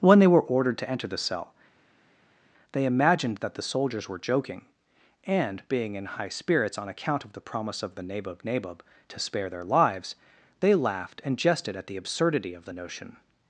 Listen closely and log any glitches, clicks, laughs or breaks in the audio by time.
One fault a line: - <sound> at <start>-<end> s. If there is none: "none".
none